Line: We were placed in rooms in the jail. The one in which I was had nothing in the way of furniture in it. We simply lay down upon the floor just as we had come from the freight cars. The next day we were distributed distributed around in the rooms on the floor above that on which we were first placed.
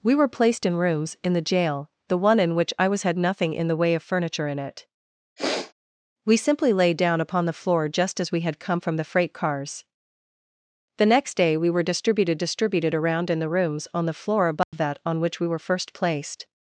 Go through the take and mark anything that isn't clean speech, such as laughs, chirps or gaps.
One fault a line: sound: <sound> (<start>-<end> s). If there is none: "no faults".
sound: sniff (5.4-5.7 s)
sound: dropout (14.6-14.7 s)